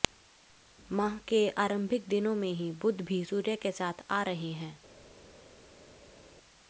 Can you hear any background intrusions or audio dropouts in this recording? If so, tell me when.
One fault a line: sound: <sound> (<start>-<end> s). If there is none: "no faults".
no faults